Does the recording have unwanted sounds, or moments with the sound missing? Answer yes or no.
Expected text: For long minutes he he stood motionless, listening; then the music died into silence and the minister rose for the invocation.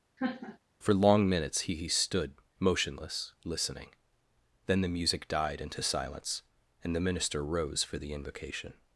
yes